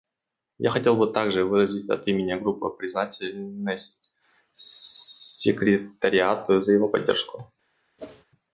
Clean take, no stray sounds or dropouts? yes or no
no